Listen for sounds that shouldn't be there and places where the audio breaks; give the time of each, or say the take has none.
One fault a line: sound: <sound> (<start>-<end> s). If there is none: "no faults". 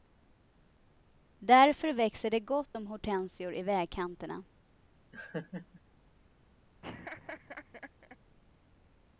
sound: laugh (5.1-5.8 s)
sound: laugh (6.8-8.2 s)